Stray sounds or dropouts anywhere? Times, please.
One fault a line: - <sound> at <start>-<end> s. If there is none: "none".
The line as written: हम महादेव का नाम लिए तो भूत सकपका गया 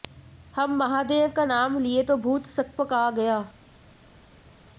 none